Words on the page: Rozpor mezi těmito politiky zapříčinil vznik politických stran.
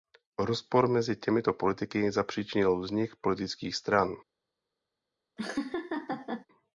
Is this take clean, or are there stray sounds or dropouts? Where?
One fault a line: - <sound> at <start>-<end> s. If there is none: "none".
- laugh at 5.4-6.5 s